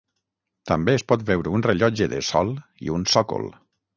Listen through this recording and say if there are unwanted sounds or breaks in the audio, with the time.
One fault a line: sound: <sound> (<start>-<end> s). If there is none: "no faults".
no faults